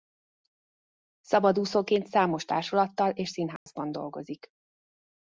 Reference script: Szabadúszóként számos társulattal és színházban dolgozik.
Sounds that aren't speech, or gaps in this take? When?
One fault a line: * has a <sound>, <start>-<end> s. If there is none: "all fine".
* has a dropout, 3.6-3.7 s